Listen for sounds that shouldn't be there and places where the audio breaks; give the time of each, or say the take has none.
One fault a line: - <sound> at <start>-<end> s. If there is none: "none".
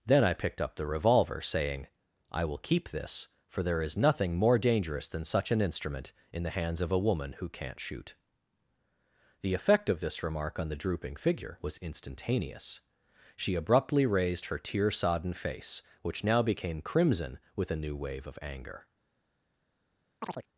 - chirp at 20.2-20.5 s